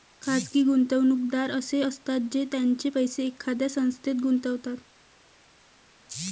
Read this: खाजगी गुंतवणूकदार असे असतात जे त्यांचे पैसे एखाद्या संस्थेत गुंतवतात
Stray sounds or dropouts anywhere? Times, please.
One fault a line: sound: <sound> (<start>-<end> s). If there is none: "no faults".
no faults